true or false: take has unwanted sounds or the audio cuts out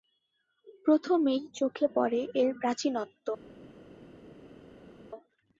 false